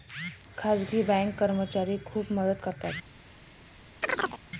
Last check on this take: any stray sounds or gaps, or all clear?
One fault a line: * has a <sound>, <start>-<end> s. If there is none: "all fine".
* has a chirp, 4.0-4.4 s